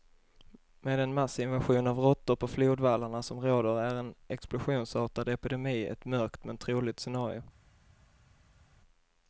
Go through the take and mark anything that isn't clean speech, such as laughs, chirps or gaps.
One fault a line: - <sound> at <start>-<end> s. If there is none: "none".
none